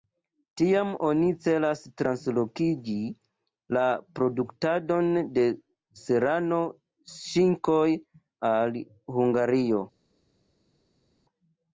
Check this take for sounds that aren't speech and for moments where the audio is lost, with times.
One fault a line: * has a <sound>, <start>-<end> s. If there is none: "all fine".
all fine